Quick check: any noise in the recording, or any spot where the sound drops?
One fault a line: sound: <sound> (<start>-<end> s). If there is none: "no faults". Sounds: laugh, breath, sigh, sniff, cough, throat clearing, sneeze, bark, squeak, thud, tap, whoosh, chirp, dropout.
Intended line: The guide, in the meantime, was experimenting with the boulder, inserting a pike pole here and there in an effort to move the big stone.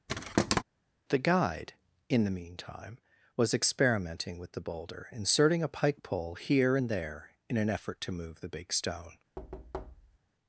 sound: thud (0.1-0.6 s)
sound: thud (9.4-10.2 s)